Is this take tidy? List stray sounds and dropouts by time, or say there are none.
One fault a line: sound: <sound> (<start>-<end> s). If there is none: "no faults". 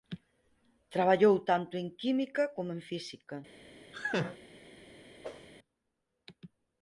sound: laugh (3.9-4.4 s)
sound: whoosh (5.2-5.5 s)